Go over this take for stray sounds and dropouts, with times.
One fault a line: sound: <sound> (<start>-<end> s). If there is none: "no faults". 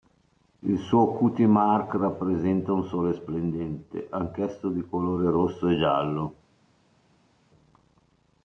no faults